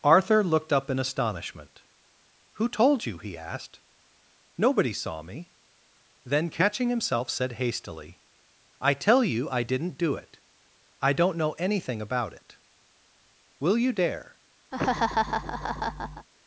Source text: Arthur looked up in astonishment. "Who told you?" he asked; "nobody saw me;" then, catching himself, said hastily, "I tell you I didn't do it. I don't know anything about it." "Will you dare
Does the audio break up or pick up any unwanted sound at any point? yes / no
yes